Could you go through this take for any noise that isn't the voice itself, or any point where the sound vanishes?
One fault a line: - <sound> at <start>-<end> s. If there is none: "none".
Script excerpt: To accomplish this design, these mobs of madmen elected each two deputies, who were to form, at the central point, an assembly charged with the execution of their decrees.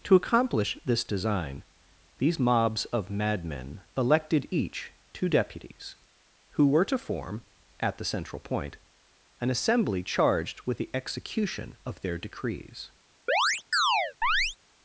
- chirp at 13.3-14.6 s